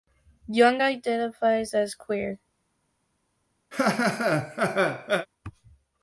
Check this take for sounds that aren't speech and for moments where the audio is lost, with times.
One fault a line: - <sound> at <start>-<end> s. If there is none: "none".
- laugh at 3.7-5.3 s